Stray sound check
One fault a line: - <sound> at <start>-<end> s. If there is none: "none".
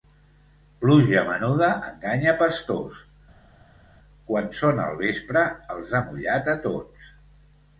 none